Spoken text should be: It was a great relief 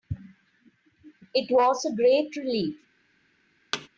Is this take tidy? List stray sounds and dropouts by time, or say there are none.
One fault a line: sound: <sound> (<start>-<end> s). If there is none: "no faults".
sound: thud (3.7-3.9 s)